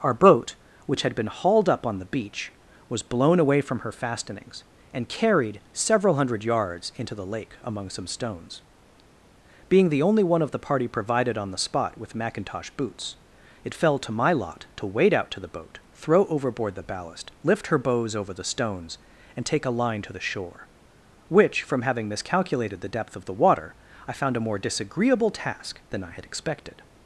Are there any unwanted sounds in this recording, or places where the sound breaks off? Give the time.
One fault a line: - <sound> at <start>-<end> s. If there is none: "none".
none